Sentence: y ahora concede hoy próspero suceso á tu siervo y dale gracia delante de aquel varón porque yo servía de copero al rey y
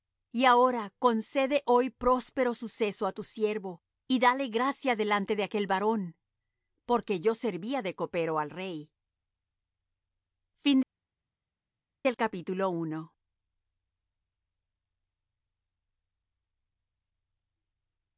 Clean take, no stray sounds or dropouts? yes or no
yes